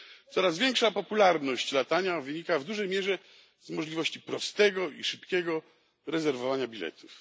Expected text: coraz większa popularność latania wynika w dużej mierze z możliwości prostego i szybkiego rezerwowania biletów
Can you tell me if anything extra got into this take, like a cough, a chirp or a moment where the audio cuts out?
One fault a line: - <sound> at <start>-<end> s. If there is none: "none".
none